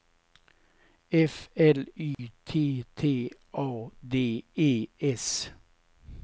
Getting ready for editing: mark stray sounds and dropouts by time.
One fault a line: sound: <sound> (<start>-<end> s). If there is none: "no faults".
sound: dropout (2.1-2.2 s)